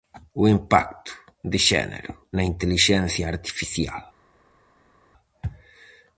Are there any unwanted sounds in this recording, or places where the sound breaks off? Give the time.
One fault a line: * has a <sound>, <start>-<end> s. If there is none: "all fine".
all fine